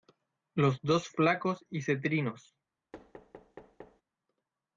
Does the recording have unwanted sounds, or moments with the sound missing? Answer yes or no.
yes